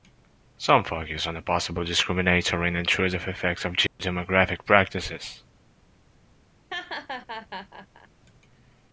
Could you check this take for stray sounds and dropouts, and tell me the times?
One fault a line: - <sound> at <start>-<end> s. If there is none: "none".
- dropout at 3.9-4.0 s
- laugh at 6.7-8.1 s